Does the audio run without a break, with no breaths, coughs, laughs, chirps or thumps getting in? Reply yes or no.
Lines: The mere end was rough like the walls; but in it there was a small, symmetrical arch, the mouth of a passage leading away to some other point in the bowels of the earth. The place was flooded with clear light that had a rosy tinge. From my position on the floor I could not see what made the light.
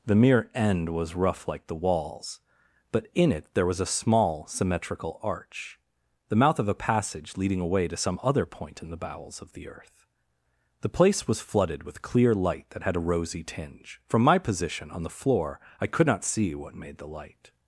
yes